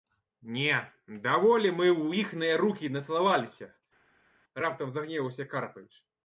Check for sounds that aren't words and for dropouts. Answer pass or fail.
pass